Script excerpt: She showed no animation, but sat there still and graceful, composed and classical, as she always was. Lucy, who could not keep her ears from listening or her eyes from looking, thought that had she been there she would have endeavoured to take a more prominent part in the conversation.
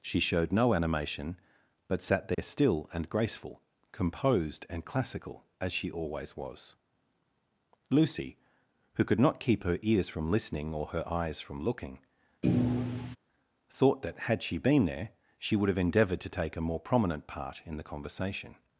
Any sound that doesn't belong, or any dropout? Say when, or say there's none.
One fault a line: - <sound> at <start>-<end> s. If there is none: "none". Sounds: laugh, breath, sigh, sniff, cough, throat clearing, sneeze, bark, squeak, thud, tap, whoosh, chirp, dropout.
- dropout at 2.3-2.4 s
- thud at 12.4-13.2 s